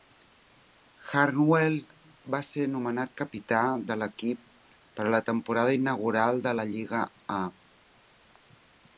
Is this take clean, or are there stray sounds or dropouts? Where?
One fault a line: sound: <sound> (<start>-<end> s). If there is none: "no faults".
no faults